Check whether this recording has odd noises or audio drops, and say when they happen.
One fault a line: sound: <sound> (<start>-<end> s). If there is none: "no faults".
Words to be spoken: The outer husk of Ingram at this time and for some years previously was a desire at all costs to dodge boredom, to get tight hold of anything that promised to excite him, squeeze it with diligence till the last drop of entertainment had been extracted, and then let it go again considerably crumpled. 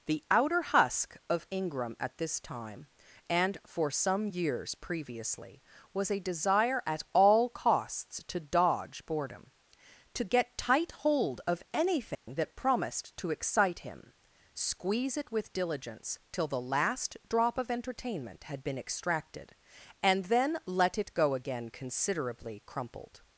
sound: dropout (12.1-12.3 s)